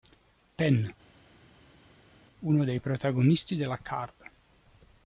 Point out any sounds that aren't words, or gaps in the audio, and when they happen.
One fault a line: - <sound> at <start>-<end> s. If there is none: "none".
none